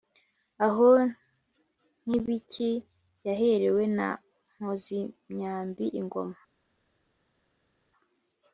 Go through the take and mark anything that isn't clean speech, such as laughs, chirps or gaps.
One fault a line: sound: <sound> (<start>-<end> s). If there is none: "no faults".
no faults